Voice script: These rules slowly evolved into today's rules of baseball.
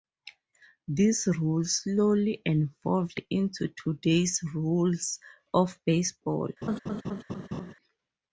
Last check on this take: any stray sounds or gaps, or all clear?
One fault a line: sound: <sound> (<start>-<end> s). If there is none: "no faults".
sound: laugh (6.6-7.7 s)